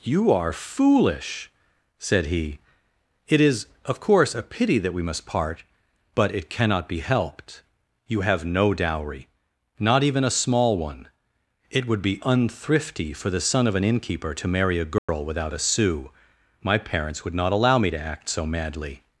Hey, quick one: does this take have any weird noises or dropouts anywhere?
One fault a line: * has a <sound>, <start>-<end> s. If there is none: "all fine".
* has a dropout, 15.0-15.1 s